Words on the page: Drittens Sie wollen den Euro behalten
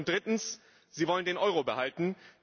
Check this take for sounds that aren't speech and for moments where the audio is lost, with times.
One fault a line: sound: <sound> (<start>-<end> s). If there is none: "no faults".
no faults